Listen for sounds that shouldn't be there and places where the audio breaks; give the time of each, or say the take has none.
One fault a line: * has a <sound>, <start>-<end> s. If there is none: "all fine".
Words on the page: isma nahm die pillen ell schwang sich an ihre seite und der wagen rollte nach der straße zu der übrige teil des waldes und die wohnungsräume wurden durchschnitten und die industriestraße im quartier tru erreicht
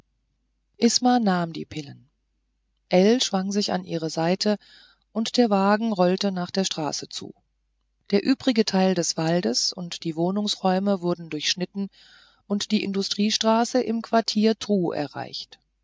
all fine